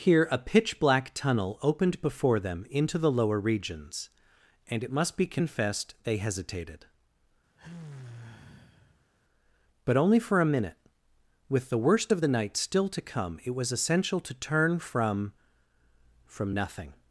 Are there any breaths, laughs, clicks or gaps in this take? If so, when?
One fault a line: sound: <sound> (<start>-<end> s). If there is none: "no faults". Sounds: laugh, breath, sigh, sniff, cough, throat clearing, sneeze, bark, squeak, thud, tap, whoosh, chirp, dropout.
sound: sigh (7.6-9.1 s)